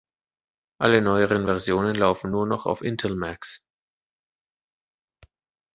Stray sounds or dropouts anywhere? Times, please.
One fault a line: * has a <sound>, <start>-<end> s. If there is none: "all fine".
all fine